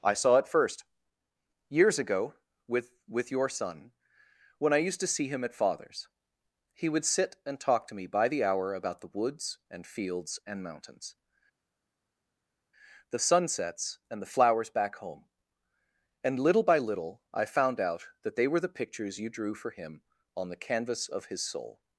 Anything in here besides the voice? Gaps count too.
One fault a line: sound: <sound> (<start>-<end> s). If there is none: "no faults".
no faults